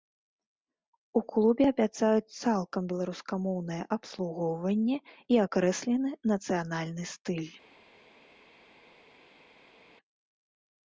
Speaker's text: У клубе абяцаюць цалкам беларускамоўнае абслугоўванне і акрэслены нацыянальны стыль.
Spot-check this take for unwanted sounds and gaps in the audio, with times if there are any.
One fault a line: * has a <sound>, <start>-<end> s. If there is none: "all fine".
all fine